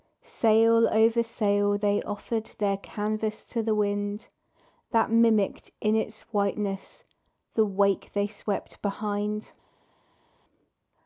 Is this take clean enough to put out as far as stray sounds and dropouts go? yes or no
yes